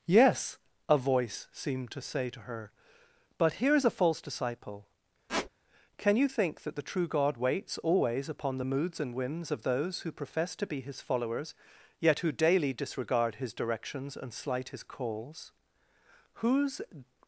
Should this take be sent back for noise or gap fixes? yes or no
yes